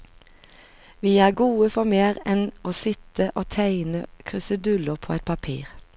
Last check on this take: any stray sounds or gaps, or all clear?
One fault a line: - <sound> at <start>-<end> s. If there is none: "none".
none